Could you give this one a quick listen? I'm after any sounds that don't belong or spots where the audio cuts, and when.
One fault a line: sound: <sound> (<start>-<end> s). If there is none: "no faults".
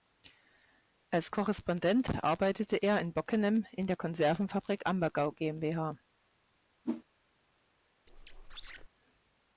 sound: whoosh (6.8-7.0 s)
sound: squeak (8.1-8.9 s)